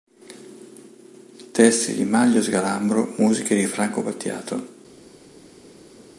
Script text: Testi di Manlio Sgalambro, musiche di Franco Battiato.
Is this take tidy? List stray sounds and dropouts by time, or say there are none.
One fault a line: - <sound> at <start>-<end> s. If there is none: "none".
none